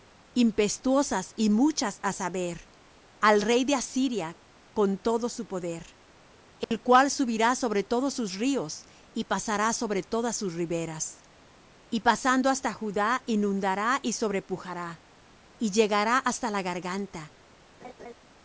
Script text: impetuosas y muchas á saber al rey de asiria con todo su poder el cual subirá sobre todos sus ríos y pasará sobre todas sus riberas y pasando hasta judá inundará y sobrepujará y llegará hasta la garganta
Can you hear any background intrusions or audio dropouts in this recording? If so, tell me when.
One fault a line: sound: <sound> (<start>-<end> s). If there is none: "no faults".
sound: dropout (6.6-6.7 s)
sound: laugh (17.8-18.1 s)